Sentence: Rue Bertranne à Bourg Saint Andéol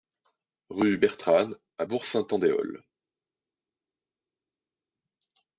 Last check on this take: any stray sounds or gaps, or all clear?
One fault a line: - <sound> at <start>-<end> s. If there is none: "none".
none